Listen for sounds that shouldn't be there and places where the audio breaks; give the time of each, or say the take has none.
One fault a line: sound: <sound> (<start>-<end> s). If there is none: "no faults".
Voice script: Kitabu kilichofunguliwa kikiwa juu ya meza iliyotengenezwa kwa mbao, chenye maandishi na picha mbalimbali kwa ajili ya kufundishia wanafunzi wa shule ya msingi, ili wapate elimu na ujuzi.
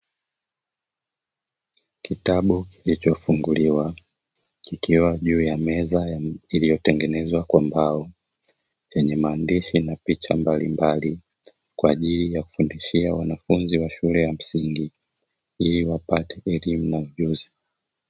no faults